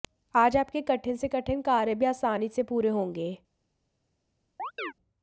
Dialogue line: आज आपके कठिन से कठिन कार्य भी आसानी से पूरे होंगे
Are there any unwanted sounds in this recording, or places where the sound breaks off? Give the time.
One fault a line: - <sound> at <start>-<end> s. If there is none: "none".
- chirp at 4.6-4.9 s